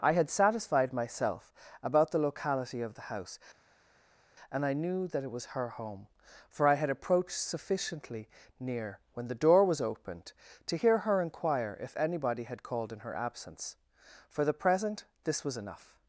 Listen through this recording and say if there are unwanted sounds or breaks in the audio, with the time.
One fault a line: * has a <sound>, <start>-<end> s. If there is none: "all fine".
all fine